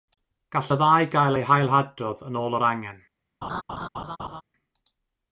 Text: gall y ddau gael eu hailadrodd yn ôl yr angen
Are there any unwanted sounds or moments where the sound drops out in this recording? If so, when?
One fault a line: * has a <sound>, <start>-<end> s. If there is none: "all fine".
* has a laugh, 3.4-4.4 s